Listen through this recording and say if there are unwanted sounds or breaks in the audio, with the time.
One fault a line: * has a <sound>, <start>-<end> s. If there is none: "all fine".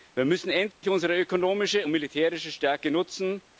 * has a dropout, 0.7-0.8 s